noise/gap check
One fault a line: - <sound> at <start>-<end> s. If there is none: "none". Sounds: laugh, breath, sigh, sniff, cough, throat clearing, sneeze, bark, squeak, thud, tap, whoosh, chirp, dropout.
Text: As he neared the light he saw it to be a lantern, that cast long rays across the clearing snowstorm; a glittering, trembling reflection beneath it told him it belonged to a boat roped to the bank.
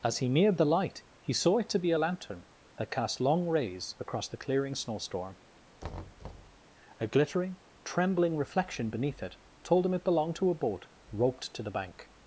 - thud at 5.8-6.6 s